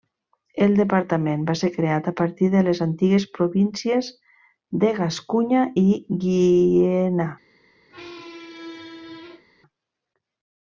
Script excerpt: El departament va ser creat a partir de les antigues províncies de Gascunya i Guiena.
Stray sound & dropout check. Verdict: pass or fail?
fail